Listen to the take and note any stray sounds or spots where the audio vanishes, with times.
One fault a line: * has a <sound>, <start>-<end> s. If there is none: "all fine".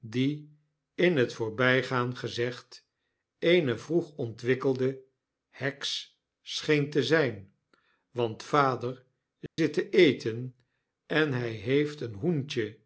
* has a dropout, 9.5-9.6 s